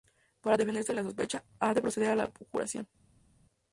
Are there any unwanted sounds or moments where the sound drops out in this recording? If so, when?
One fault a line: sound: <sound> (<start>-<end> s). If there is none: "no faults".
no faults